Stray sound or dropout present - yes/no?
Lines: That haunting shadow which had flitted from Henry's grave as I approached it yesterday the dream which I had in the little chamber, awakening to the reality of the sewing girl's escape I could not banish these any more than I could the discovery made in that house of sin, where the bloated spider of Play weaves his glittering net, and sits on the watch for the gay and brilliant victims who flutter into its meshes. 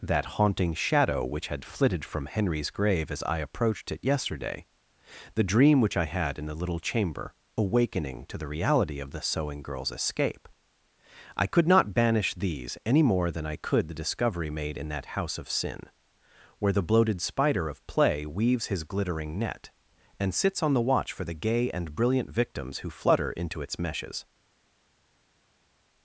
no